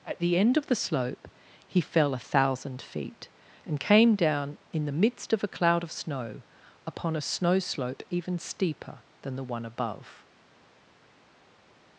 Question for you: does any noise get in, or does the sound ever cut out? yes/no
no